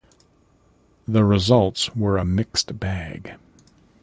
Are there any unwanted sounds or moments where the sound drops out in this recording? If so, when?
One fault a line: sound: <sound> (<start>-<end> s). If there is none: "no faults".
no faults